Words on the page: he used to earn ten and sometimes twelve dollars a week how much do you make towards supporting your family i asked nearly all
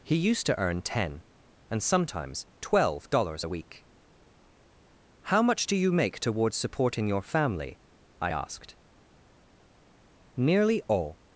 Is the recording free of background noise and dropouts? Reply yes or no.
yes